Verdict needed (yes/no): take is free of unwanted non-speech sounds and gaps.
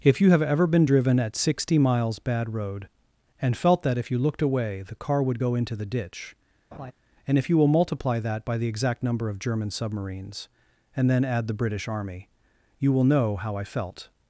no